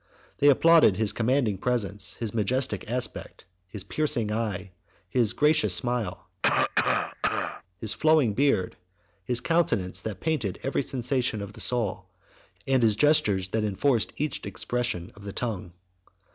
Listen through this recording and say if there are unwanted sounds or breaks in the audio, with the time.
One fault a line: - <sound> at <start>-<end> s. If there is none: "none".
- cough at 6.4-7.6 s